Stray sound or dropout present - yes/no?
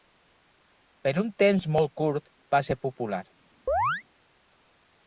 yes